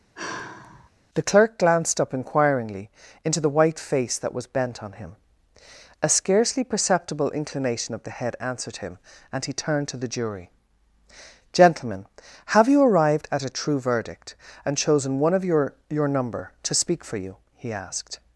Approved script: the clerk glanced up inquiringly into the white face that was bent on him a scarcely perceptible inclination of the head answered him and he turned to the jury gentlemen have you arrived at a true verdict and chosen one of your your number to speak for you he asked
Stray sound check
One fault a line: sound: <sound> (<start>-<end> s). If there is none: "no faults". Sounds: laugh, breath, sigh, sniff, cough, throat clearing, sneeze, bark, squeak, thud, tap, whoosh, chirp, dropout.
sound: sigh (0.1-0.9 s)